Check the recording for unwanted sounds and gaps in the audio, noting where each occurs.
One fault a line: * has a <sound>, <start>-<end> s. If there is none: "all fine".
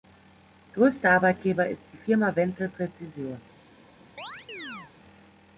* has a chirp, 4.2-4.9 s